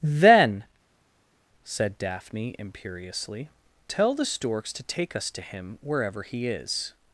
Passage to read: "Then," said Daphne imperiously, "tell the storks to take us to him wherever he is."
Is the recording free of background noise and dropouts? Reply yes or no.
yes